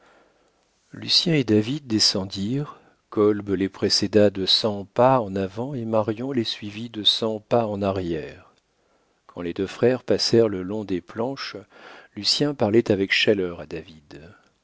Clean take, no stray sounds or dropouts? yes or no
yes